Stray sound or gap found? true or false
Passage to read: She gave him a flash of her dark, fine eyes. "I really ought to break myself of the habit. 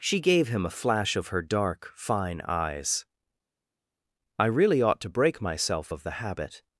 false